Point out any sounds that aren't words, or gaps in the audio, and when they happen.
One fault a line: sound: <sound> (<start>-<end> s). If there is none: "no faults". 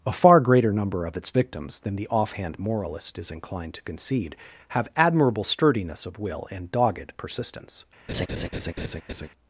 sound: laugh (8.1-9.3 s)